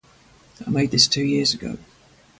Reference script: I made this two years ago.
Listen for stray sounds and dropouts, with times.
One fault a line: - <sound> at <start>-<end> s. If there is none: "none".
none